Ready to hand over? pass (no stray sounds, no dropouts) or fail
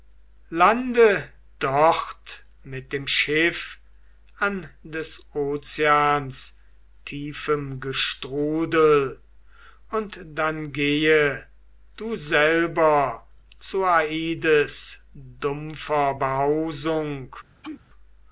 fail